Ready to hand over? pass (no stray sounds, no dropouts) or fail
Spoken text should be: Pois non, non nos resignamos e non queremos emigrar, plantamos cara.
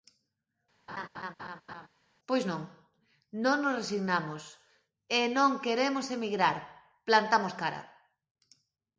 fail